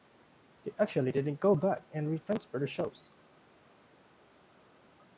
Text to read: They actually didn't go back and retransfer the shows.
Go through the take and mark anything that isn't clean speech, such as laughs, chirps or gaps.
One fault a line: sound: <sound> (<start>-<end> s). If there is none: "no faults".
no faults